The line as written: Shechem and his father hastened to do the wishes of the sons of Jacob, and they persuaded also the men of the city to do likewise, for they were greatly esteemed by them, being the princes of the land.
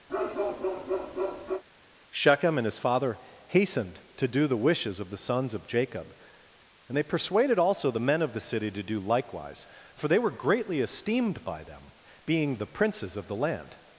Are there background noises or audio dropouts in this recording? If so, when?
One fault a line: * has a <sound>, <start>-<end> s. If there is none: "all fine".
* has a bark, 0.1-1.6 s